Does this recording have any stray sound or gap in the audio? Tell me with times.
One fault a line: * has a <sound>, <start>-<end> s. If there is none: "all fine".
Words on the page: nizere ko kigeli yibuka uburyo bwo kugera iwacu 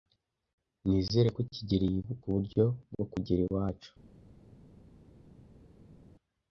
all fine